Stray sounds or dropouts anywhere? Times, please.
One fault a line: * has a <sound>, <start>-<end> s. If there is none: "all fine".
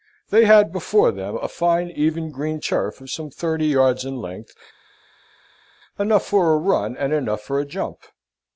all fine